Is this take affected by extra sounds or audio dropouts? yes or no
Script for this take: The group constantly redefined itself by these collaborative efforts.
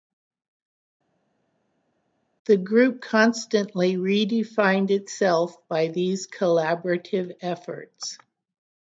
no